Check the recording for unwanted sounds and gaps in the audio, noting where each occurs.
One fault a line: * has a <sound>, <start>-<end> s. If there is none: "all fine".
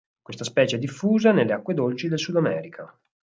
all fine